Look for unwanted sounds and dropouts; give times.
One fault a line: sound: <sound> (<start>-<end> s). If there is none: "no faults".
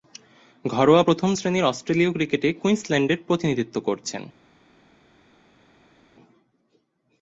no faults